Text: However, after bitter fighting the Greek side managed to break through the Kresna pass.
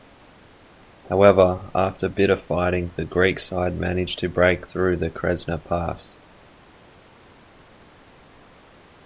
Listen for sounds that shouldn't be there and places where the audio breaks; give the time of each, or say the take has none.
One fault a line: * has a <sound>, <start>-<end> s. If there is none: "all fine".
all fine